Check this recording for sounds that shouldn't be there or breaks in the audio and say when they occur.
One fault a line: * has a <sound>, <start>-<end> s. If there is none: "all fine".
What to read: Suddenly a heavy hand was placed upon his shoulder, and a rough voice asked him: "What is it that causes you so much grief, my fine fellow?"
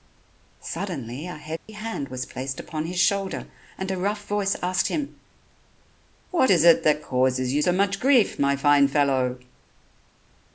* has a dropout, 1.6-1.7 s